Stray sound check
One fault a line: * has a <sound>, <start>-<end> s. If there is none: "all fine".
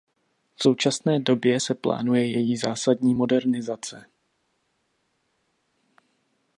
all fine